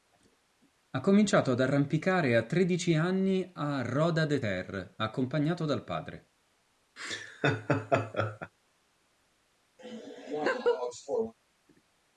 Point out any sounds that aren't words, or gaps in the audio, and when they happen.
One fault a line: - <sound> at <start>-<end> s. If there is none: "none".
- laugh at 7.0-8.5 s
- laugh at 9.8-11.3 s